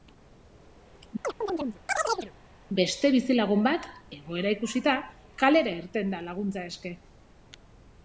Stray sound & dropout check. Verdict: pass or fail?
fail